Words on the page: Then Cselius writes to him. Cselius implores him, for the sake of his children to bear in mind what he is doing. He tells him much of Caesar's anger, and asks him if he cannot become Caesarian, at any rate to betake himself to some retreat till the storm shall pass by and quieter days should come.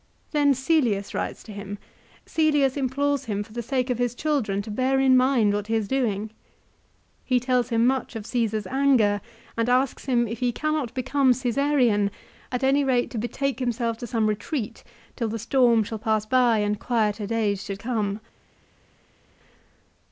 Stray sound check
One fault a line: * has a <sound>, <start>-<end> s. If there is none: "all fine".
all fine